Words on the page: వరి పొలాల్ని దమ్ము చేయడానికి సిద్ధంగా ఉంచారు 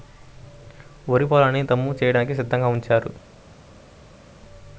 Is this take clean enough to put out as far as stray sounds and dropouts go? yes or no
yes